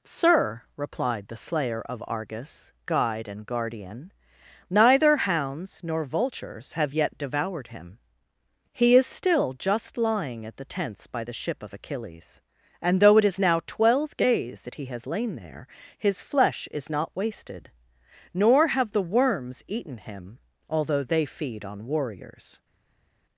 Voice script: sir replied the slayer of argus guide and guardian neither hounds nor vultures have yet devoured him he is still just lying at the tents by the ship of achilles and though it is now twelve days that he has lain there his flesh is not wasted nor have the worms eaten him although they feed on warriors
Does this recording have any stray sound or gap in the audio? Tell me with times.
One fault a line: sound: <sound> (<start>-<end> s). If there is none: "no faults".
no faults